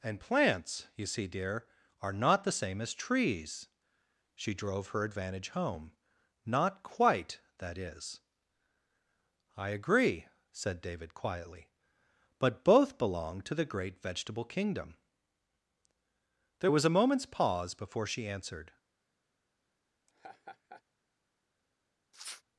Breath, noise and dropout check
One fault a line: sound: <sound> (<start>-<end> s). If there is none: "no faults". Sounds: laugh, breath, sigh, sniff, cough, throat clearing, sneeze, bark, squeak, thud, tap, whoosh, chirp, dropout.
sound: laugh (20.1-20.8 s)
sound: sniff (22.1-22.4 s)